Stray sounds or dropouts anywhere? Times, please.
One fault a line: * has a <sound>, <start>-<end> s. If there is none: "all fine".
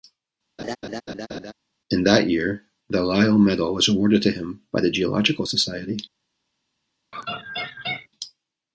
* has a laugh, 0.6-1.5 s
* has a laugh, 7.1-8.1 s